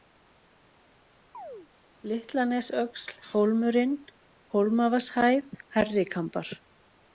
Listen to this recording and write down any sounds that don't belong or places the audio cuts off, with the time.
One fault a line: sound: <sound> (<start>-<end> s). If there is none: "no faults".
sound: chirp (1.3-1.7 s)